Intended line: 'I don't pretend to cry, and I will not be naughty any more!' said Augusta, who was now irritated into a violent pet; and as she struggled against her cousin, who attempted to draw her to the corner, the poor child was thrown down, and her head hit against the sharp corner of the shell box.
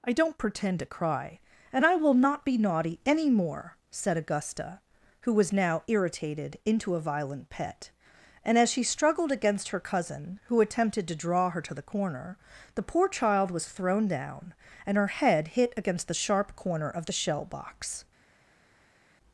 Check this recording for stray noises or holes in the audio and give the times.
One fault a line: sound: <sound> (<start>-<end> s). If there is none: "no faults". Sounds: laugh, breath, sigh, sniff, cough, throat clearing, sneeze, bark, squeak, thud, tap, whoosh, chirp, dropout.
no faults